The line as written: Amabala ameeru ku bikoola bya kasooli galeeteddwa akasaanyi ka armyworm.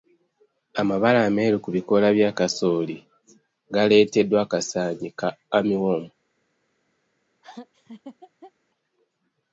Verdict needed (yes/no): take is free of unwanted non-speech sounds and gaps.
no